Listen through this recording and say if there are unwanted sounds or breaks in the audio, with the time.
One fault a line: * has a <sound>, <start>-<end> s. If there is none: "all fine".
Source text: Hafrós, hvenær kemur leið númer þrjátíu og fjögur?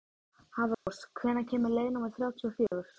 * has a dropout, 0.7-0.9 s
* has a dropout, 2.7-2.7 s